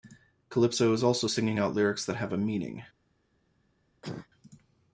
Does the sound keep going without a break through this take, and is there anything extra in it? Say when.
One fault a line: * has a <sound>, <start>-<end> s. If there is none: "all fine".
* has a cough, 4.0-4.3 s